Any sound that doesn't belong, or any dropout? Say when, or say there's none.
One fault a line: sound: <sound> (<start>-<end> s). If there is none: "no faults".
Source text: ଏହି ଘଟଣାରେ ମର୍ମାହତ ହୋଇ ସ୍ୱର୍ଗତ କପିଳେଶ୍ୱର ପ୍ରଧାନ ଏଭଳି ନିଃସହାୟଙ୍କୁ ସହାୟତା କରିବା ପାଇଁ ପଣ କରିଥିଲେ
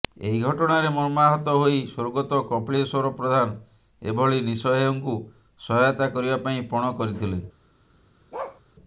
sound: bark (8.3-8.6 s)